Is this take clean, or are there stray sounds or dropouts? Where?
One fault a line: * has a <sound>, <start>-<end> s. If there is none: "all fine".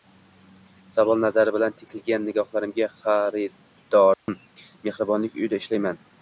* has a dropout, 4.1-4.3 s